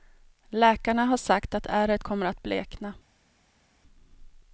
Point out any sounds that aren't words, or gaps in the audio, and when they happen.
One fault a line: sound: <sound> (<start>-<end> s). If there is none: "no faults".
no faults